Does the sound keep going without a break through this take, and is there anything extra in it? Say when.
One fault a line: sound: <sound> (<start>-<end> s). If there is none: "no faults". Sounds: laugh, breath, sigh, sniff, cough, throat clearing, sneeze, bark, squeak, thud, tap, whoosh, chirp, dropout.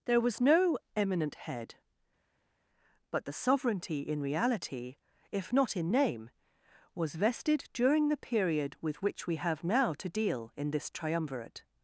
no faults